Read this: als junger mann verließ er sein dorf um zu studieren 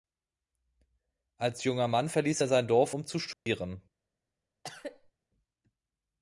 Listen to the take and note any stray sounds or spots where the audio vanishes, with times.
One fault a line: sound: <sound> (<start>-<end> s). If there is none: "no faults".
sound: dropout (3.3-3.5 s)
sound: cough (4.6-5.1 s)